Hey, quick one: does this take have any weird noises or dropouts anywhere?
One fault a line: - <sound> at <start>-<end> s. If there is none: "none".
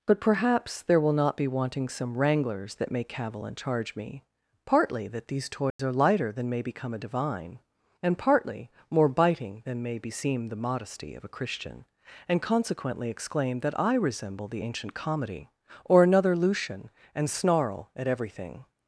- dropout at 5.7-5.8 s